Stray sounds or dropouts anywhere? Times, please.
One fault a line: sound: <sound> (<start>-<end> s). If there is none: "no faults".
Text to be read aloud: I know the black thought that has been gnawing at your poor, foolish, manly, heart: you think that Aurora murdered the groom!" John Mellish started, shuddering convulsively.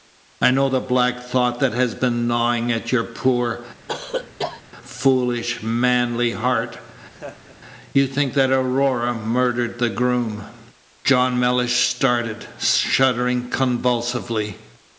sound: cough (3.9-4.6 s)
sound: laugh (7.1-7.6 s)